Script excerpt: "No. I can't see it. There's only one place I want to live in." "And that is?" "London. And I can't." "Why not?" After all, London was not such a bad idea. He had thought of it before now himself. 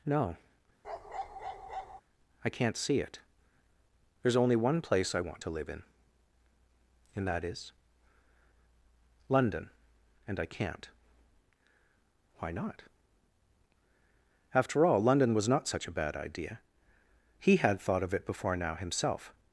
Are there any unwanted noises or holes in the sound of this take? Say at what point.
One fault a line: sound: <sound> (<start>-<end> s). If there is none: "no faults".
sound: bark (0.8-2.0 s)